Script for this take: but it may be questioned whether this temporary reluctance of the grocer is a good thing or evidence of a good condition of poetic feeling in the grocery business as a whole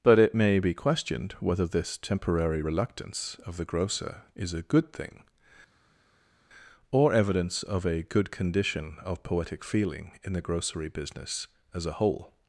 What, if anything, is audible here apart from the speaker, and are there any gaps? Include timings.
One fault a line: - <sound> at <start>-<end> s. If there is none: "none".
none